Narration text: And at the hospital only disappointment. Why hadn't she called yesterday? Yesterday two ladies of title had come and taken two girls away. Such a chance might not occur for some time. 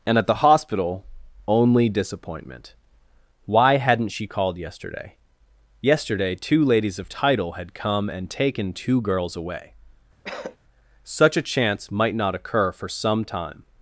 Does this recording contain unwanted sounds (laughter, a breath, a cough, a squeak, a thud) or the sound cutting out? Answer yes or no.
yes